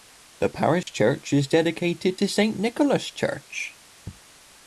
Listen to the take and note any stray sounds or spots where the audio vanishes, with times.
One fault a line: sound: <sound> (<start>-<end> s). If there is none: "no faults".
sound: dropout (0.8-0.9 s)